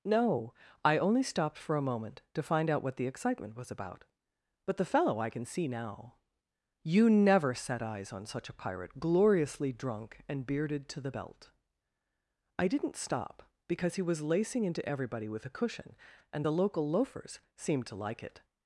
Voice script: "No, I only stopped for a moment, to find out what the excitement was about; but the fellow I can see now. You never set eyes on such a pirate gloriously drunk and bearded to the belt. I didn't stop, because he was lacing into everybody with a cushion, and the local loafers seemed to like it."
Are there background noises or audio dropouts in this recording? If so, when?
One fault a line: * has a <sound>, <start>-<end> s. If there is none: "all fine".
all fine